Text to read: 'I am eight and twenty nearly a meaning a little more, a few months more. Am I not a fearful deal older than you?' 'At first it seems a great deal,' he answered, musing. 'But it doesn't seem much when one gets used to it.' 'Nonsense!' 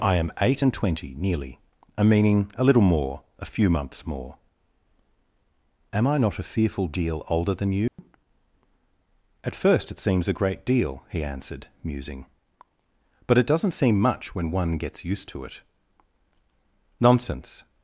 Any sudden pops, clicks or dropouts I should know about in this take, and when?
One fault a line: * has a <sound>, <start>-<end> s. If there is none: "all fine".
* has a dropout, 7.9-8.0 s